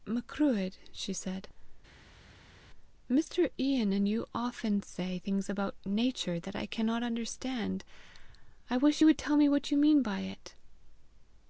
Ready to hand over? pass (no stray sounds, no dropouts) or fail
pass